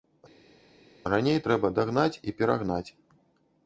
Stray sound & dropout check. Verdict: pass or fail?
pass